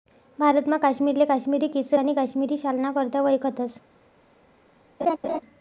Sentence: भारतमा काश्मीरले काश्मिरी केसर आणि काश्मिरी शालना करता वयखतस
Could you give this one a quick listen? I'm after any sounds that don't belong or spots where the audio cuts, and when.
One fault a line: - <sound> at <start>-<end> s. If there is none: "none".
- laugh at 5.0-5.4 s